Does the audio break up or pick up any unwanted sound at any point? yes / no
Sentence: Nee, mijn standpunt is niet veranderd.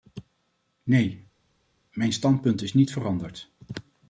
no